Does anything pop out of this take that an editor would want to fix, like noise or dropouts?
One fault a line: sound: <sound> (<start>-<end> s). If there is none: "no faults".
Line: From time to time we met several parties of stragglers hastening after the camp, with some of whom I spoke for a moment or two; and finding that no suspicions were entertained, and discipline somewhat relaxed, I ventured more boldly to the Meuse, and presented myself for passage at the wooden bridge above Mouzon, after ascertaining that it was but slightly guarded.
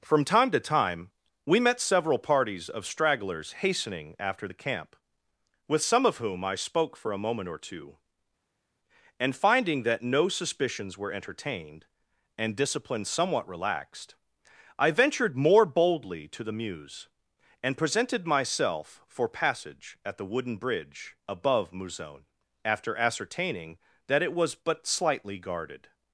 no faults